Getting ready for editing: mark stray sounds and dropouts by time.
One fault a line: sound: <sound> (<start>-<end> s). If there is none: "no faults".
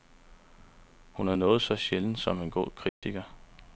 sound: dropout (2.9-3.0 s)